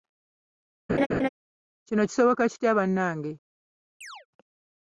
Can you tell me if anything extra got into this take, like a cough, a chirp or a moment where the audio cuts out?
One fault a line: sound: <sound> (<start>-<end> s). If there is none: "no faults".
sound: laugh (0.9-1.3 s)
sound: chirp (4.0-4.3 s)